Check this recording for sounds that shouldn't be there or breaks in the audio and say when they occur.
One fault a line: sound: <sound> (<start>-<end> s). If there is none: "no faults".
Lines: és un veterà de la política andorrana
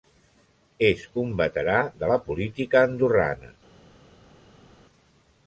no faults